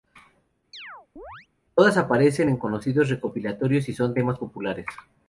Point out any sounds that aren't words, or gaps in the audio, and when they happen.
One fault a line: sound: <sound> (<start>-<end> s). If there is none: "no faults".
sound: chirp (0.7-1.5 s)